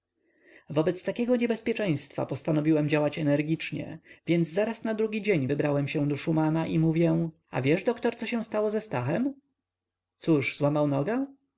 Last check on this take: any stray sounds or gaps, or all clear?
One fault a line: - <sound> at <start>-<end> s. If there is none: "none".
none